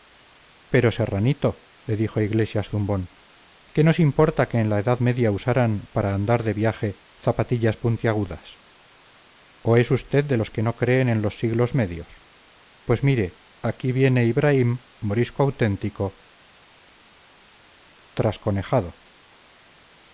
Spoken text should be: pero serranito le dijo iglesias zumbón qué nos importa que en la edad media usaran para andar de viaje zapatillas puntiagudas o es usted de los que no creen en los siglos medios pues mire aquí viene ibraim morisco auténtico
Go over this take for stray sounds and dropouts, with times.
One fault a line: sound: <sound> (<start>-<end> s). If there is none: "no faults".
no faults